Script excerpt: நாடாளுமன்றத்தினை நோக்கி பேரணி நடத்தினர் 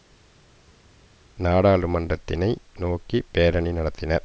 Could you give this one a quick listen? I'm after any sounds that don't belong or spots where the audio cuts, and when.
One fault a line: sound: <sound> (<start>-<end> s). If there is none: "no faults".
no faults